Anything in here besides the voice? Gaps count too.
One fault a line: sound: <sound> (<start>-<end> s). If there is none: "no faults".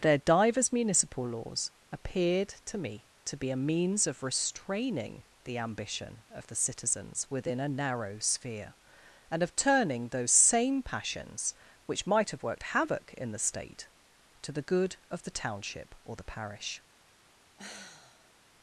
sound: sigh (17.6-18.3 s)